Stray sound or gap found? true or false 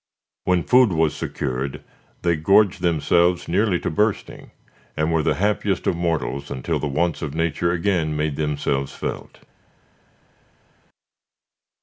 false